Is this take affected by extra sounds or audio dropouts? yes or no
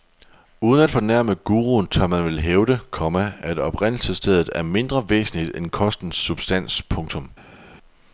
no